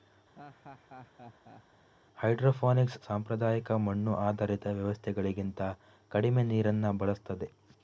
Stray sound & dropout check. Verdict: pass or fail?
fail